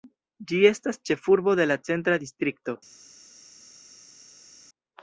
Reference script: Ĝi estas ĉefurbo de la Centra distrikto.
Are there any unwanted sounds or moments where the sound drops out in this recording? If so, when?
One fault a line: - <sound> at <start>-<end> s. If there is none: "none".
none